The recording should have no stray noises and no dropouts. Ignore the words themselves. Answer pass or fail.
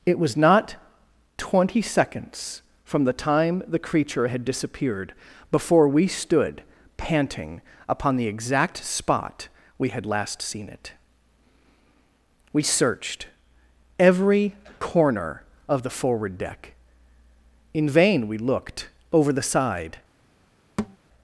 fail